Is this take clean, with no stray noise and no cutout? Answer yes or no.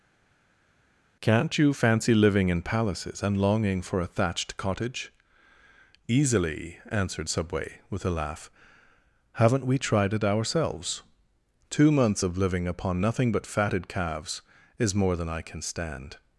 yes